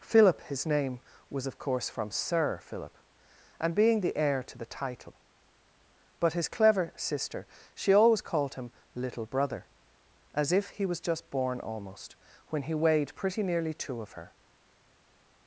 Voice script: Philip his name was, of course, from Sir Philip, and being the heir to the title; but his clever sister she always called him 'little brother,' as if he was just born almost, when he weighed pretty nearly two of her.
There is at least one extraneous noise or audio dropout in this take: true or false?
false